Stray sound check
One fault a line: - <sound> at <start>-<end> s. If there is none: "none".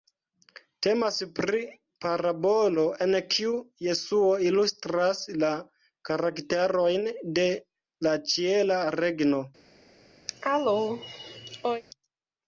- cough at 10.3-11.8 s